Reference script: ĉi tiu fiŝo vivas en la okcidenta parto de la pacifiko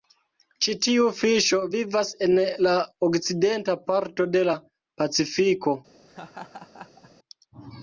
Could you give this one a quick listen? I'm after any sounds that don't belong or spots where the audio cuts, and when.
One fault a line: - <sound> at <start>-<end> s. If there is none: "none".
- laugh at 6.1-7.1 s